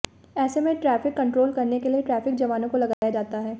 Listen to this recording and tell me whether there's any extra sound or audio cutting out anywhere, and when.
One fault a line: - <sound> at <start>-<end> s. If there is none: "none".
- dropout at 2.9-3.0 s